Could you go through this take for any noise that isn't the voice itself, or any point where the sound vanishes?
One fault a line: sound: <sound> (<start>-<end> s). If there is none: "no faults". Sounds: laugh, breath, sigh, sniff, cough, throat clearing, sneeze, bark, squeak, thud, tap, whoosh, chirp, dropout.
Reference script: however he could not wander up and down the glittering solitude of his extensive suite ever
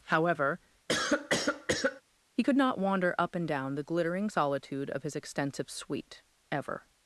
sound: cough (0.9-2.0 s)